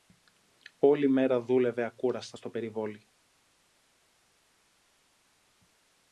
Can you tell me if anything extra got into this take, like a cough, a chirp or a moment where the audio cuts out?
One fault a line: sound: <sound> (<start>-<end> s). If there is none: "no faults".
no faults